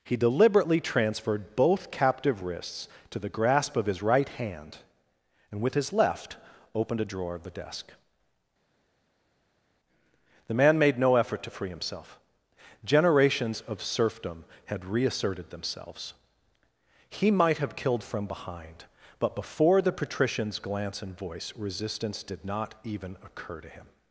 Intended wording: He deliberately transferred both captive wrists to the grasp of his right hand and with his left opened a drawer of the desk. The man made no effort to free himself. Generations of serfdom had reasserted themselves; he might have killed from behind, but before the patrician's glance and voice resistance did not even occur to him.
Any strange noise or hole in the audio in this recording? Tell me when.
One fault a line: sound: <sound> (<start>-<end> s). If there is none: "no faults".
no faults